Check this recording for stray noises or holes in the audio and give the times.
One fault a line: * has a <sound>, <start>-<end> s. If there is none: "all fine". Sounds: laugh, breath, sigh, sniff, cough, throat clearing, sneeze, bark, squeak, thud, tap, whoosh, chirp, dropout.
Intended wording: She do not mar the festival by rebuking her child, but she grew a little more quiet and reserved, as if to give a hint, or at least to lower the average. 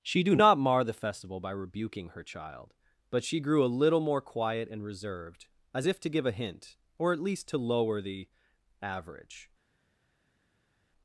all fine